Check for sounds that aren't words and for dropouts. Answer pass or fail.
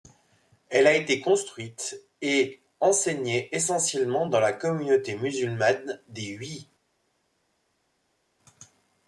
pass